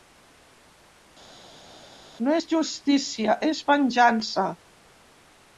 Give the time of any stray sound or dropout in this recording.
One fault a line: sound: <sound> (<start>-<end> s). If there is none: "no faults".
no faults